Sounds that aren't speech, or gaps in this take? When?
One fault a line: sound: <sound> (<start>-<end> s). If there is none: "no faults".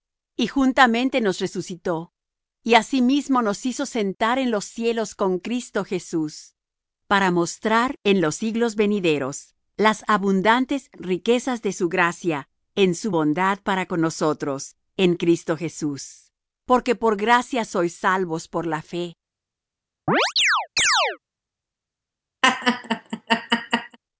sound: chirp (20.1-21.2 s)
sound: laugh (22.4-24.0 s)